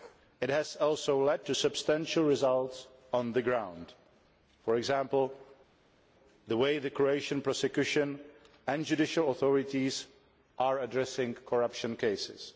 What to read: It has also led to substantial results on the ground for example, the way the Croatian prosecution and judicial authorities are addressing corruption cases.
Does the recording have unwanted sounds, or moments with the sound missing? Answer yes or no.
no